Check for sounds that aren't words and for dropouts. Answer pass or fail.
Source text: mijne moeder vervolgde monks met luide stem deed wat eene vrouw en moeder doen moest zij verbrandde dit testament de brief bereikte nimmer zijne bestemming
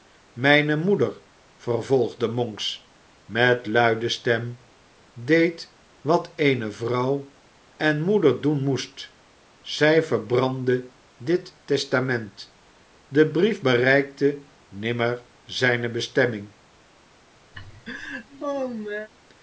fail